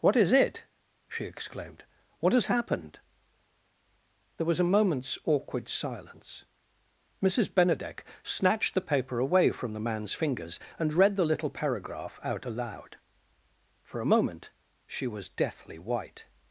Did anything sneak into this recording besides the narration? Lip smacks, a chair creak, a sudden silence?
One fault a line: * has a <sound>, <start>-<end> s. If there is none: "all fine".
all fine